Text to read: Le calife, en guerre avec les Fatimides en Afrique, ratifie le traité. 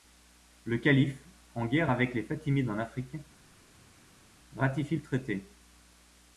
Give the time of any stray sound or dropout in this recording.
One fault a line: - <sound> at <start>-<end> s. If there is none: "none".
none